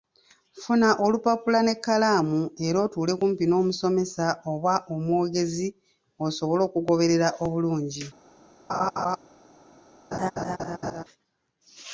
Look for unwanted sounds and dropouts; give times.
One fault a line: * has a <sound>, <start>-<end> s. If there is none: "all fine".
* has a laugh, 8.7-9.2 s
* has a laugh, 10.1-11.0 s